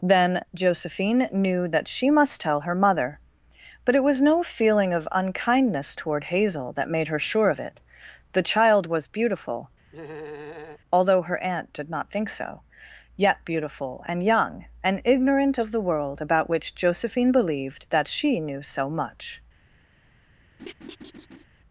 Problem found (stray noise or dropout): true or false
true